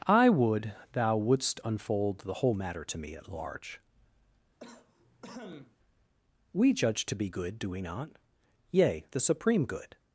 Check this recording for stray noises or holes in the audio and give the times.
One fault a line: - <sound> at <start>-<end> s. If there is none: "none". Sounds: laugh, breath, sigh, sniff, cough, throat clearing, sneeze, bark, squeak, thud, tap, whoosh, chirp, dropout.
- cough at 4.6-5.8 s